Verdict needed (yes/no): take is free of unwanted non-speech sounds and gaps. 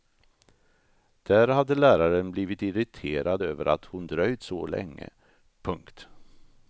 yes